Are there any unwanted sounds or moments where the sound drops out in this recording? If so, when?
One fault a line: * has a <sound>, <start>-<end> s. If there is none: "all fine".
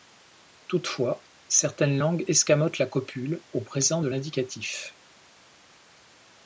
all fine